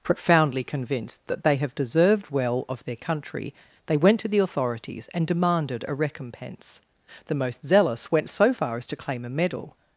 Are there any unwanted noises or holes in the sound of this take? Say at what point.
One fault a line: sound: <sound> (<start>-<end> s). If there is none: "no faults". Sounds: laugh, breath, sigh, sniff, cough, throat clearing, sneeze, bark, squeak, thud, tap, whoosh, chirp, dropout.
no faults